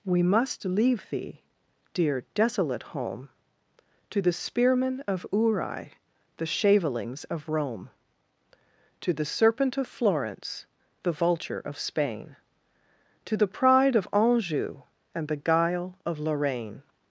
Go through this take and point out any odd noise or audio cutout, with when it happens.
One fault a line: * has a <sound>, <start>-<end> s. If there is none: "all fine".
all fine